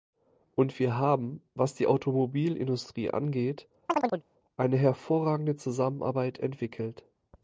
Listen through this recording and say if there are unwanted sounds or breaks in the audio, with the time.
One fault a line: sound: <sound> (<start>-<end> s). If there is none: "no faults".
sound: chirp (3.9-4.2 s)